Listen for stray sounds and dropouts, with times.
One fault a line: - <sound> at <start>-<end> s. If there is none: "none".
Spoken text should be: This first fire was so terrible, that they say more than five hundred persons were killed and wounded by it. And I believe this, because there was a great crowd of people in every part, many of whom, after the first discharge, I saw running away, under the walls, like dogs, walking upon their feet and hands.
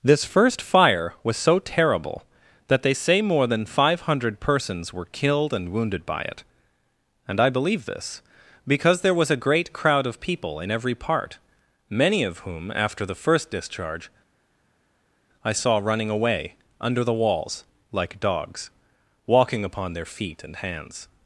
none